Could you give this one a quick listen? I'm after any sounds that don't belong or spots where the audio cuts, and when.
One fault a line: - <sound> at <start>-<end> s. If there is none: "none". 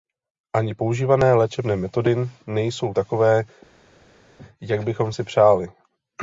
none